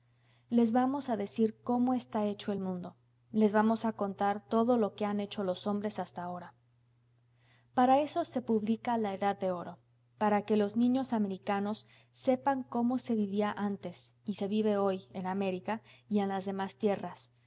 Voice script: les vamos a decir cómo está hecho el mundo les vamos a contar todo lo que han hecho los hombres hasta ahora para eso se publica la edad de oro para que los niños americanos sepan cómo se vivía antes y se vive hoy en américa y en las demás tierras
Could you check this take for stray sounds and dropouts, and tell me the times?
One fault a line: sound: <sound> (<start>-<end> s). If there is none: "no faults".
no faults